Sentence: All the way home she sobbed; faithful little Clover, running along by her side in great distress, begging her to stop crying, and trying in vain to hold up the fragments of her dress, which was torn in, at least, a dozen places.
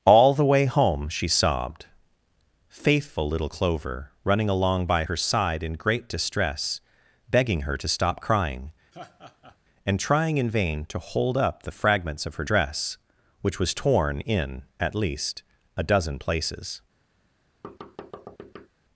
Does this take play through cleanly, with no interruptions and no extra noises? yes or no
no